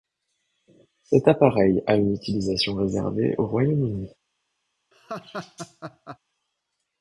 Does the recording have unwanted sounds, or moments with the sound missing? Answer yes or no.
yes